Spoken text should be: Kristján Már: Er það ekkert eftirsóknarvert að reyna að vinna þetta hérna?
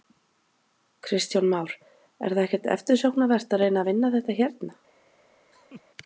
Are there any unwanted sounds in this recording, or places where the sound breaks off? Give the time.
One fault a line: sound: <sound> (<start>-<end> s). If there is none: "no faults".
sound: laugh (5.5-5.8 s)